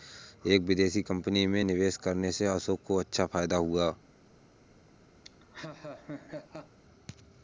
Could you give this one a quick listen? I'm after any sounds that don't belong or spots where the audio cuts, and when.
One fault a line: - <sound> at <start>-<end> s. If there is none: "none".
- laugh at 5.2-6.8 s